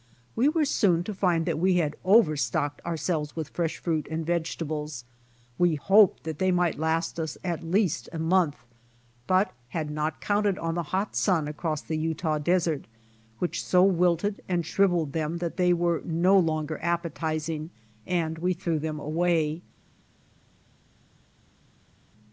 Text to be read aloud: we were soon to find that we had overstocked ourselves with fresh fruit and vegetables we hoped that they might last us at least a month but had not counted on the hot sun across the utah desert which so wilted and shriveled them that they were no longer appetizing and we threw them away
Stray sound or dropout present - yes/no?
no